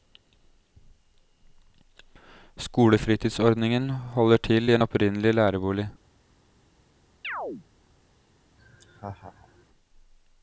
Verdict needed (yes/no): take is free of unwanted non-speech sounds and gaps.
no